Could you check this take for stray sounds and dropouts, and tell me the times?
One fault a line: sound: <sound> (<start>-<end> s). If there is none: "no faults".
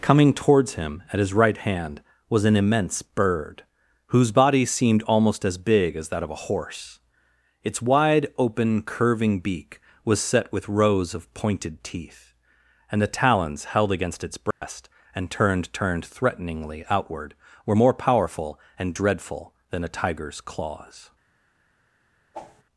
sound: dropout (14.5-14.6 s)
sound: whoosh (22.3-22.6 s)